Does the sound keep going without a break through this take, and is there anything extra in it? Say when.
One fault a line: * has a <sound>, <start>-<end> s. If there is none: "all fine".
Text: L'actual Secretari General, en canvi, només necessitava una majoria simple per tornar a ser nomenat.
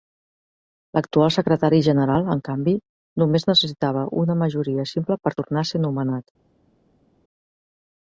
all fine